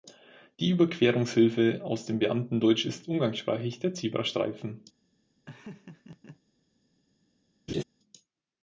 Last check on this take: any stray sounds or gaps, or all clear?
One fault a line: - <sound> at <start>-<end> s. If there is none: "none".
- laugh at 5.5-6.4 s
- laugh at 7.7-7.8 s